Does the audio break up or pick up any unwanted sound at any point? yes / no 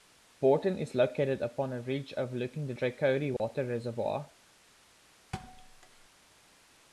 yes